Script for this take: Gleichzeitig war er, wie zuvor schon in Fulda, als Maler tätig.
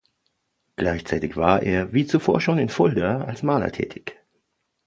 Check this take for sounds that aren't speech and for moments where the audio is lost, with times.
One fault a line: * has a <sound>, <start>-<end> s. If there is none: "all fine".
all fine